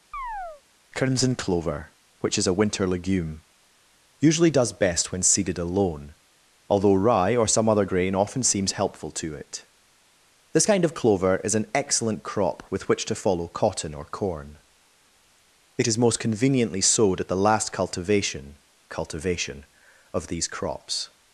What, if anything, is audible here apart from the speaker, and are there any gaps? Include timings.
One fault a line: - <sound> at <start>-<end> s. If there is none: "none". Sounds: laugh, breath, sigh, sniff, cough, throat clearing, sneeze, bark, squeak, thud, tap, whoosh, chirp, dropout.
- chirp at 0.1-0.6 s